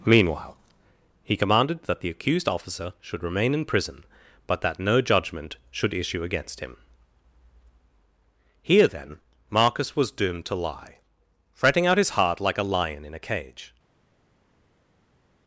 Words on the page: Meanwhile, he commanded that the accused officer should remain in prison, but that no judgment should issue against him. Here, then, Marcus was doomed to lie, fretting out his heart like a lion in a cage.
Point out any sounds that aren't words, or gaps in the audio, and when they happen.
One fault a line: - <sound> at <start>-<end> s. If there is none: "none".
none